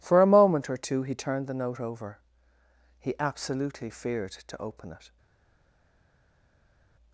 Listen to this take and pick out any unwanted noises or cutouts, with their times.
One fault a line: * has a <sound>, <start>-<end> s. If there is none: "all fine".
all fine